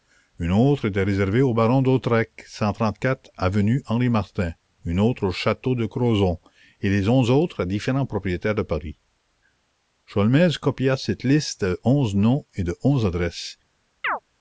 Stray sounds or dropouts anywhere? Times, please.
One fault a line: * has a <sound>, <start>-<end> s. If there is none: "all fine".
* has a chirp, 14.0-14.2 s